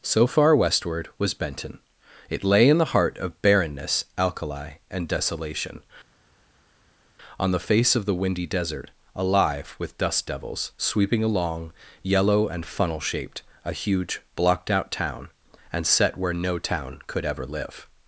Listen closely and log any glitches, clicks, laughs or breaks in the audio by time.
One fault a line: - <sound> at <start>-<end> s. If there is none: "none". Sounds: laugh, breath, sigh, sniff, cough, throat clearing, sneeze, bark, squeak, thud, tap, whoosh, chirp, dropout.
none